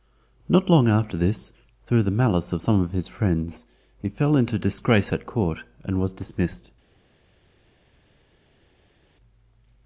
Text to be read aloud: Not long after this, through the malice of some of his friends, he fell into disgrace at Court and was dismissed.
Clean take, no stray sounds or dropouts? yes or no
yes